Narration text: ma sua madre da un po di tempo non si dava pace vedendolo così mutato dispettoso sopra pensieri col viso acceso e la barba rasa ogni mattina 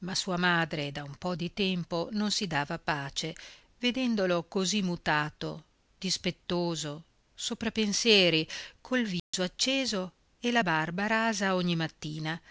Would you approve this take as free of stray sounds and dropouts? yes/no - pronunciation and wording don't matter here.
no